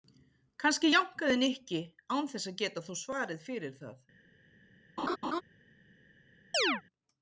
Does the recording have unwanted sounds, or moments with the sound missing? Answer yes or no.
yes